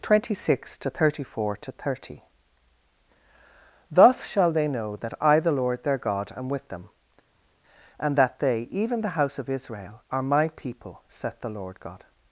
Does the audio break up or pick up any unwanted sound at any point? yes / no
no